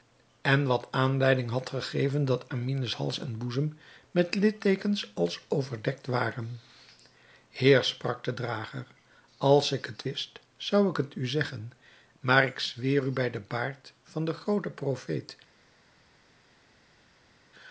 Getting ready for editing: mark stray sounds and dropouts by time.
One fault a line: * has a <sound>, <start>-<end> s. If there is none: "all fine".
all fine